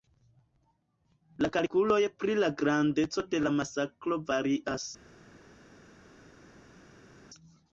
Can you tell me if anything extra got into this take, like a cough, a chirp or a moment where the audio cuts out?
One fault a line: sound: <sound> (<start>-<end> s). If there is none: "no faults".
no faults